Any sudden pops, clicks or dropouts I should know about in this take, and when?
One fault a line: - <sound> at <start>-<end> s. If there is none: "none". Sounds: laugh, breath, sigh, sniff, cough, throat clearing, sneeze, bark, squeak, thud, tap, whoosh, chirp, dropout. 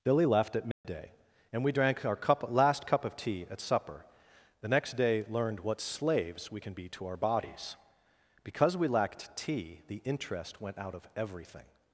- dropout at 0.7-0.8 s